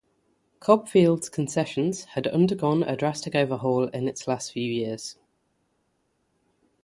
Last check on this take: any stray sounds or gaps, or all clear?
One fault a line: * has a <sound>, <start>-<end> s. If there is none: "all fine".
all fine